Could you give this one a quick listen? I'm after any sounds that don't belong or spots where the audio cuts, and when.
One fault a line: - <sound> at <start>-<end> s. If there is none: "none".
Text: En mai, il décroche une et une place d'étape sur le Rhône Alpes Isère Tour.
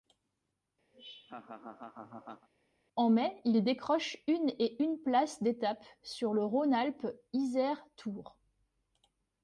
- laugh at 0.9-2.5 s